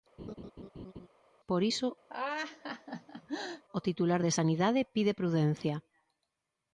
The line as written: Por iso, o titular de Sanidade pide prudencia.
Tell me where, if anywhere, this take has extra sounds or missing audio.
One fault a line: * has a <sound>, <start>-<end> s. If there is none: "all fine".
* has a laugh, 0.2-1.1 s
* has a laugh, 2.1-3.6 s